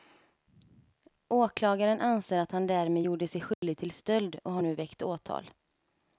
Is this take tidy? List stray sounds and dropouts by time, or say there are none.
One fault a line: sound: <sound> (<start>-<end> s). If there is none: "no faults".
sound: dropout (3.5-3.6 s)